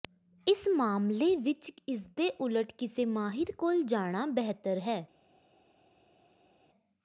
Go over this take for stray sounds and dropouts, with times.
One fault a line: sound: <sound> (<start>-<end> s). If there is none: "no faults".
no faults